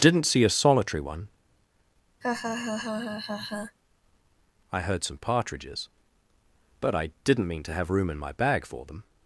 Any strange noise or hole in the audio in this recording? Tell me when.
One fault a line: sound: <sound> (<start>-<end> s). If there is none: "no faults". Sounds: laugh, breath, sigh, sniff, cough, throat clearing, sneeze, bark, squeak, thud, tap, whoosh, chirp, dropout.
sound: laugh (2.2-3.8 s)